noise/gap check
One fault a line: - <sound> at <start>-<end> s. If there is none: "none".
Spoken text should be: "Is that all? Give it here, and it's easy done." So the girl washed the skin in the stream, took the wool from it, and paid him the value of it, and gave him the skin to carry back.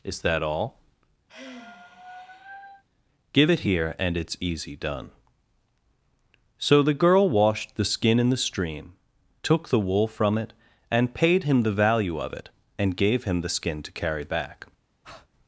- sigh at 1.3-2.8 s
- breath at 15.0-15.3 s